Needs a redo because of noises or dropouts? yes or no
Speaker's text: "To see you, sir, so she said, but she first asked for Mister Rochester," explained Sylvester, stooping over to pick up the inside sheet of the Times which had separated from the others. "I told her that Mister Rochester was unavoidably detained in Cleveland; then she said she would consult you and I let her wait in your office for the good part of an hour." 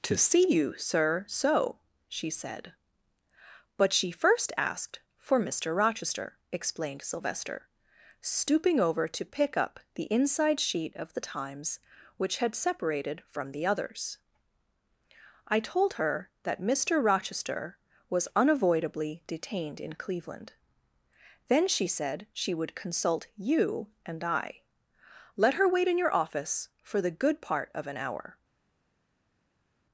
no